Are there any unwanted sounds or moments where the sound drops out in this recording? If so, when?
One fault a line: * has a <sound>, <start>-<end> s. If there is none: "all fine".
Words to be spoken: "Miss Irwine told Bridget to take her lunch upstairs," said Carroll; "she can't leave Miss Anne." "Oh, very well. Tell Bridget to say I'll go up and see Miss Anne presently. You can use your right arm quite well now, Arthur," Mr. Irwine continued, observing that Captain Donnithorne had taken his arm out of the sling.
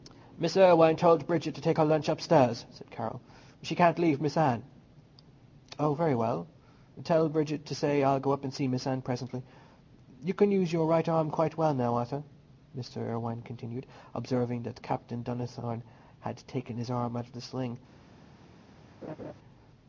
* has a laugh, 19.0-19.3 s